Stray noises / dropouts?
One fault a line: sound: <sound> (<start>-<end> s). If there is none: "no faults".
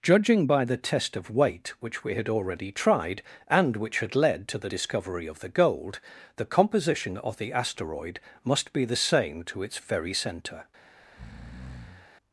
sound: breath (11.0-12.1 s)